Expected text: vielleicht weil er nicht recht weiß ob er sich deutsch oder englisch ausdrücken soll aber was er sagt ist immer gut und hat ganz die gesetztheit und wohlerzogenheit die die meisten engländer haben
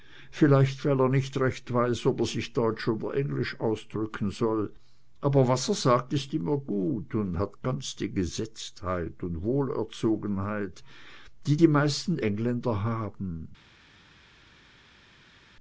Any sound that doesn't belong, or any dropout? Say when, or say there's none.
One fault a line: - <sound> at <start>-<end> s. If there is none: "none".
none